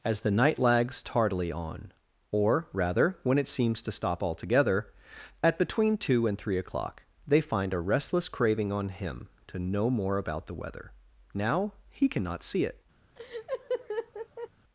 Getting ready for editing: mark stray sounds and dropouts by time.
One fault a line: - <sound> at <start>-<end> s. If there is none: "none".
- laugh at 13.2-14.5 s